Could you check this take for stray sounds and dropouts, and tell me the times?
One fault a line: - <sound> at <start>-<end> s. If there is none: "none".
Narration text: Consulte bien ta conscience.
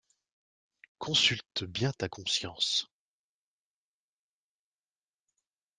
none